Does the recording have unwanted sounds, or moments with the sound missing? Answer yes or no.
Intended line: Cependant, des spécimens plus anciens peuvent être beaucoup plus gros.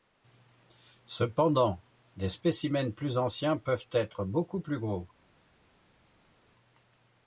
no